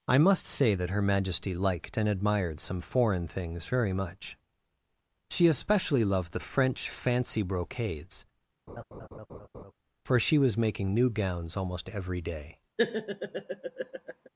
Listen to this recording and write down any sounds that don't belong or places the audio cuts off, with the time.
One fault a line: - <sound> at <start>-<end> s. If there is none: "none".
- laugh at 8.7-9.7 s
- laugh at 12.8-14.3 s